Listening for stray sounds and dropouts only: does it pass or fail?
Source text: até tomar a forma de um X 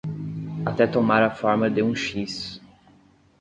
pass